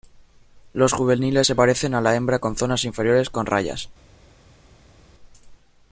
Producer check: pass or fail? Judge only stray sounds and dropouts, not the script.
pass